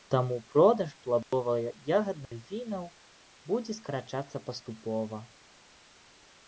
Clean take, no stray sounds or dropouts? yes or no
no